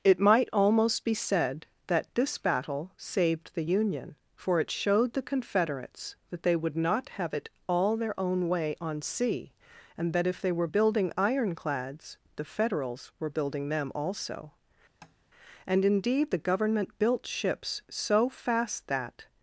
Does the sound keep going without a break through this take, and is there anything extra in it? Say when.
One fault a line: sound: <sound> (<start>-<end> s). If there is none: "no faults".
sound: tap (15.0-15.2 s)